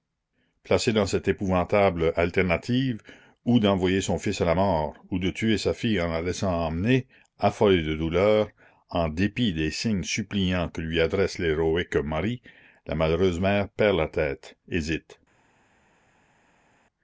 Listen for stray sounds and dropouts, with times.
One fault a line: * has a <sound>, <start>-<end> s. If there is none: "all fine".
all fine